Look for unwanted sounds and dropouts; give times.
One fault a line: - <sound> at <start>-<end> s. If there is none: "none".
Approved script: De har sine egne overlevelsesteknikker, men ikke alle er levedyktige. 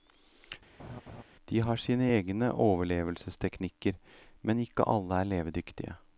- laugh at 0.8-1.2 s